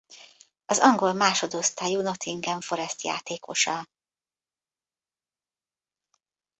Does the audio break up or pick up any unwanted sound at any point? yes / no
no